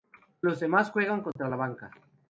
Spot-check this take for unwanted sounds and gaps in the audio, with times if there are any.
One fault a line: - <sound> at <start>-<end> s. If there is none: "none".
- dropout at 1.3-1.4 s